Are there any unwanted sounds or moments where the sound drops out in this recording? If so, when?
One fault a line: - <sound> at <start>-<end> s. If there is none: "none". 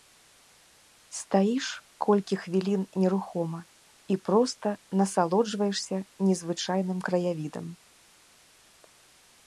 none